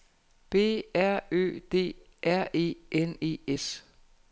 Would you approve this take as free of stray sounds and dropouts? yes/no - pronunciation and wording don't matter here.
yes